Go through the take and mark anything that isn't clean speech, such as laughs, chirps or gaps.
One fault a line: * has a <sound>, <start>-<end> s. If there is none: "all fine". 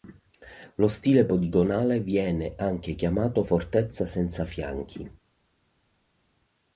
all fine